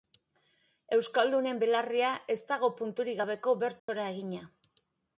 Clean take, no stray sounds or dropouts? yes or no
no